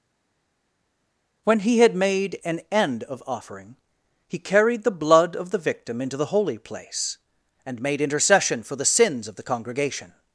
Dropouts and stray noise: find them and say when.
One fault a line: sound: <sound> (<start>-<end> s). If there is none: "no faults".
no faults